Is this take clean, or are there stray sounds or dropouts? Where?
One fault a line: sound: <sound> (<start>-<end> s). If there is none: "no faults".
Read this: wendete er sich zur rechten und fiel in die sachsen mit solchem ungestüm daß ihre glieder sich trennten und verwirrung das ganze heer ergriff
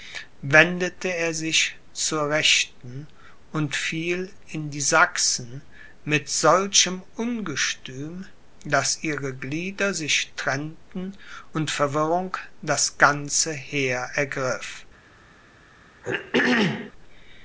sound: throat clearing (16.0-16.9 s)